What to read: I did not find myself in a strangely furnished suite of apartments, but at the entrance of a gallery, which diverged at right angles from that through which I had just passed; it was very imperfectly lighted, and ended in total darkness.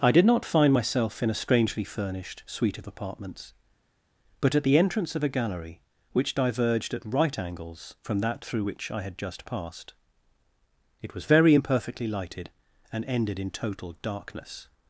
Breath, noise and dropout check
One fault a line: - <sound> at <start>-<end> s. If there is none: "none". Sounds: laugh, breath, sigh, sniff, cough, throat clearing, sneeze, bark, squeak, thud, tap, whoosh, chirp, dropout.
none